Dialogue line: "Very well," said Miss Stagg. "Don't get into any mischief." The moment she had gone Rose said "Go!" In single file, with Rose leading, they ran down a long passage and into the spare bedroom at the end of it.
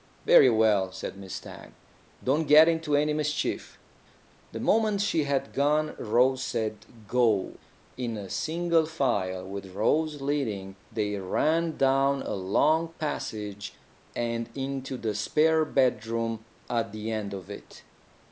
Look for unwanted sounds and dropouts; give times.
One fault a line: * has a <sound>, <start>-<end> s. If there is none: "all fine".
all fine